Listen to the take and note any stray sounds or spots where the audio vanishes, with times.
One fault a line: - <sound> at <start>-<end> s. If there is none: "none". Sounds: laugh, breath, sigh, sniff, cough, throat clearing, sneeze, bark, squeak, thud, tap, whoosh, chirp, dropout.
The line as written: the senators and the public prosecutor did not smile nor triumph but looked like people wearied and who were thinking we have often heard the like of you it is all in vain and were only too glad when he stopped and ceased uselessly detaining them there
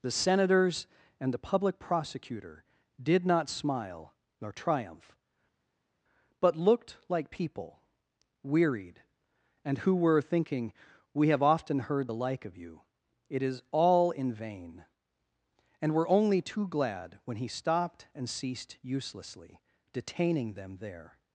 none